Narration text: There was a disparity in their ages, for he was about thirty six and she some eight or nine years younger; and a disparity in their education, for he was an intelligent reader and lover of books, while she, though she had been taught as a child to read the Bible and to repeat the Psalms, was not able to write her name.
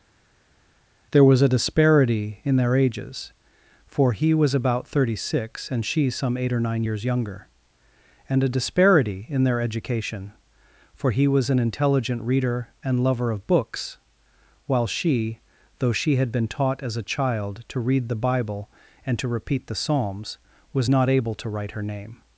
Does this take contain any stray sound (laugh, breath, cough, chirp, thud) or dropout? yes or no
no